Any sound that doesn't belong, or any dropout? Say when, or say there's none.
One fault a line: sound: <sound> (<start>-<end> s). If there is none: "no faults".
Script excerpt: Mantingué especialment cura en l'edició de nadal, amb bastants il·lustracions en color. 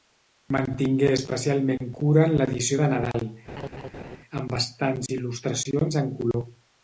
sound: laugh (3.5-4.2 s)